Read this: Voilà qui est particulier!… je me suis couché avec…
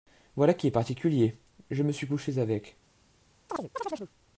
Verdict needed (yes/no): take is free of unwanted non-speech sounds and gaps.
no